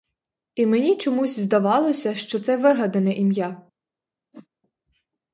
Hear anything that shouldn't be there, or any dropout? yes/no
yes